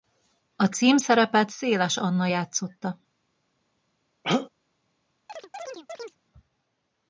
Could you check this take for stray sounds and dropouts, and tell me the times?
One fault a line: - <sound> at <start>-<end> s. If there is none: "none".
- throat clearing at 4.2-4.5 s
- chirp at 5.3-6.2 s